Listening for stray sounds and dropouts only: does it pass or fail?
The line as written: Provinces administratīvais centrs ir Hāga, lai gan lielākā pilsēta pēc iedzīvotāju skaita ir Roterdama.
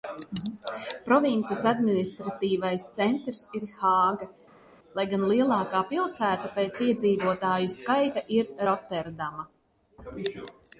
pass